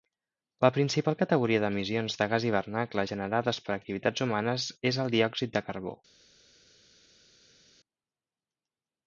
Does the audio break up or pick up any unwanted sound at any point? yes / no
no